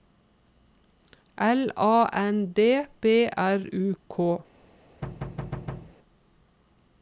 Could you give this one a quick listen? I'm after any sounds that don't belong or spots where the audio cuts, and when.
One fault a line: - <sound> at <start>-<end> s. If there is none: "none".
- thud at 5.0-6.0 s